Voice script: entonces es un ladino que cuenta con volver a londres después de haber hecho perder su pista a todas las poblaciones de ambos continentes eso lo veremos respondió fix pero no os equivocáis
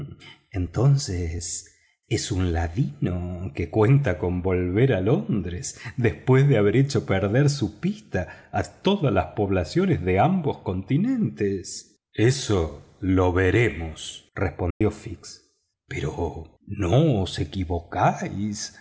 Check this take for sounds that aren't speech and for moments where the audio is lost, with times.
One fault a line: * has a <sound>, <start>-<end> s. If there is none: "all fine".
* has a dropout, 14.7-14.8 s